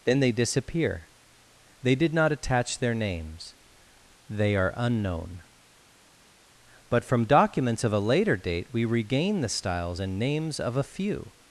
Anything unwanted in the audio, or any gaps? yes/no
no